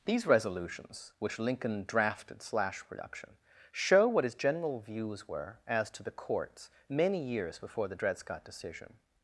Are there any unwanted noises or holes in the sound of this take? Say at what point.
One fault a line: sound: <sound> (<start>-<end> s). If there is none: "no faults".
no faults